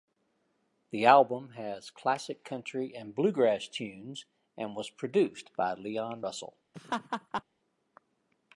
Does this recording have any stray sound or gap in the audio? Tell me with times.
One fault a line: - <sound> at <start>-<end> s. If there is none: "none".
- laugh at 6.7-7.4 s